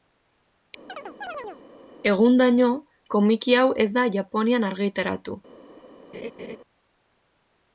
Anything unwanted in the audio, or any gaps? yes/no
yes